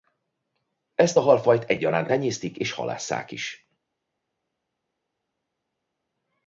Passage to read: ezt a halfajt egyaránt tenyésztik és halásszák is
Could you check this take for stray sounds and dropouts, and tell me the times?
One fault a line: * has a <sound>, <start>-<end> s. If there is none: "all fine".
all fine